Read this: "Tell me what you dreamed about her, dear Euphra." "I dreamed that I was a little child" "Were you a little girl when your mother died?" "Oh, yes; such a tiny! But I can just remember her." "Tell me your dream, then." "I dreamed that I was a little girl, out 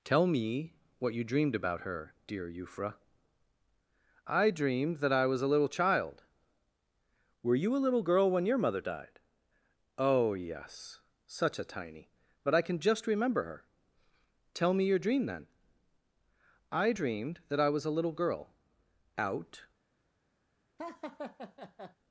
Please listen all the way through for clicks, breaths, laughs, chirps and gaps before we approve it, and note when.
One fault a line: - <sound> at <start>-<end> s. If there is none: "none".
- laugh at 20.8-22.0 s